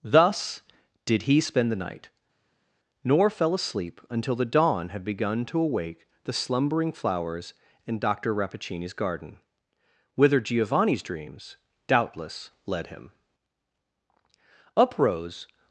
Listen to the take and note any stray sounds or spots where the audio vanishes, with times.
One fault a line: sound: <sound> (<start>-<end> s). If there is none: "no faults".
no faults